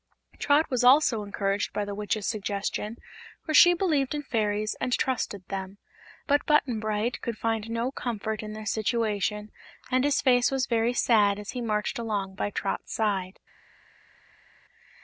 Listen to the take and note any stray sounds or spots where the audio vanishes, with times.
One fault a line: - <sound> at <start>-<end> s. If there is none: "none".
none